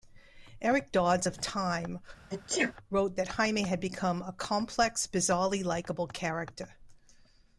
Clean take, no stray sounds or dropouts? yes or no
no